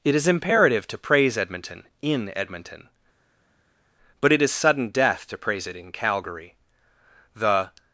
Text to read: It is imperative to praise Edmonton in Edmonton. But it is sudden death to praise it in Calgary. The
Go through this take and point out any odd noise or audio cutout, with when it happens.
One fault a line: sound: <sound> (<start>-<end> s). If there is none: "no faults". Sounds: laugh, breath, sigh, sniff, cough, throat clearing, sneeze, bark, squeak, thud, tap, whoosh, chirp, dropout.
no faults